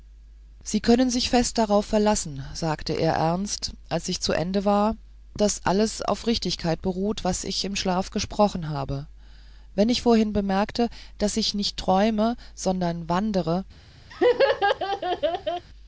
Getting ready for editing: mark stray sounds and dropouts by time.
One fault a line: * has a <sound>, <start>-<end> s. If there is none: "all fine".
* has a laugh, 14.1-15.7 s